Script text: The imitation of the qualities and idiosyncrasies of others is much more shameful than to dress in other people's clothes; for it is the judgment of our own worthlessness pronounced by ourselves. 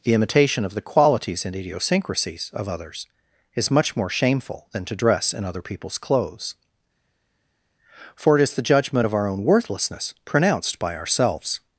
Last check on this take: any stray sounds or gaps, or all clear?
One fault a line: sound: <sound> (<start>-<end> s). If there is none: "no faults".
no faults